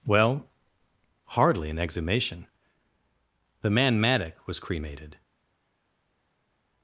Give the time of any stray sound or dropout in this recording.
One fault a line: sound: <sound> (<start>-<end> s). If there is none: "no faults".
no faults